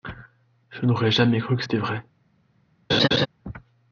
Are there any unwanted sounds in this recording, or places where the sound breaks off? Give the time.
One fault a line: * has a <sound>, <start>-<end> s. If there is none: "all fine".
* has a laugh, 2.9-3.3 s